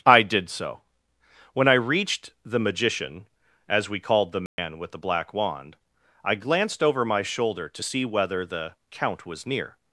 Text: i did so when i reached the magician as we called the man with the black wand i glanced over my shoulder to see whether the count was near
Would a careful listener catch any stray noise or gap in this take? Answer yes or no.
yes